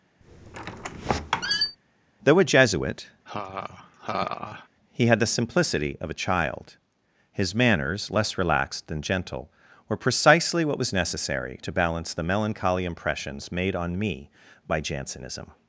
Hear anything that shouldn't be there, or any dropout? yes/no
yes